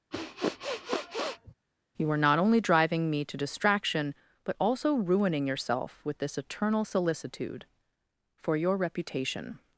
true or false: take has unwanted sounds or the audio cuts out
true